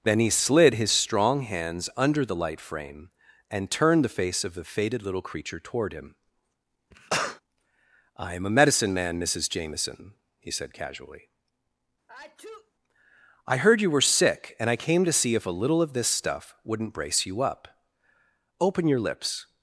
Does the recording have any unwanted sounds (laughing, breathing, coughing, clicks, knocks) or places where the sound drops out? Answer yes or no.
yes